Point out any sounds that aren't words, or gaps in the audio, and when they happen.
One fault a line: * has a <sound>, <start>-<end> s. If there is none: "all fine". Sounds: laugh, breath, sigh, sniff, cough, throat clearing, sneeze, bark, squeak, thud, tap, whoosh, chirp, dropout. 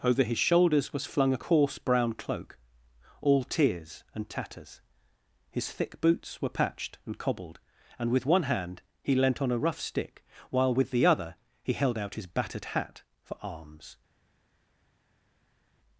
all fine